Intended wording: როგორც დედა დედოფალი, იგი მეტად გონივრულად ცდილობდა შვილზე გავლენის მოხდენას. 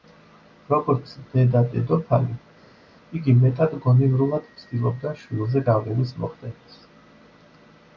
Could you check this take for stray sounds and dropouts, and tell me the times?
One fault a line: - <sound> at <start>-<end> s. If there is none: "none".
none